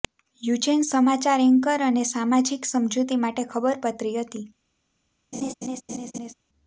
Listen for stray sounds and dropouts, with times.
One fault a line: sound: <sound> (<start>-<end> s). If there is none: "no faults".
sound: laugh (5.3-6.3 s)